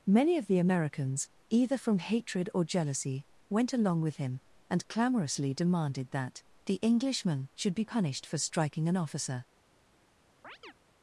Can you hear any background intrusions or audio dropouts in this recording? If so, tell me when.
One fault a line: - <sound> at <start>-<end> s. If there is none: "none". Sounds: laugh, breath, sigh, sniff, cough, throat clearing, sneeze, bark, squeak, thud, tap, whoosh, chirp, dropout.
- chirp at 10.4-10.7 s